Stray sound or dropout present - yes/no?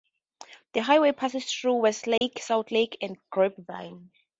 yes